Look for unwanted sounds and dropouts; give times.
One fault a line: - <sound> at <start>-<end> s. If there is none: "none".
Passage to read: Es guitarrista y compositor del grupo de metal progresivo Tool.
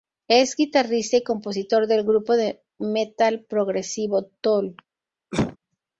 - cough at 5.3-5.6 s